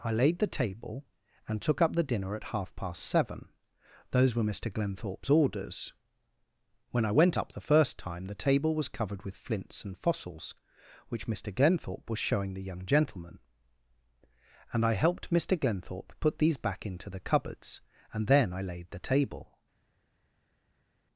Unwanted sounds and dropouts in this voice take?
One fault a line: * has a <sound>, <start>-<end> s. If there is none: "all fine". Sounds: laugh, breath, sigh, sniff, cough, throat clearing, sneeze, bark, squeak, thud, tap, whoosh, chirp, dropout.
all fine